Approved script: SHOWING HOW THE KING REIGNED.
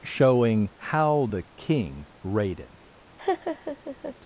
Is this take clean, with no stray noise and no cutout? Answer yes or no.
no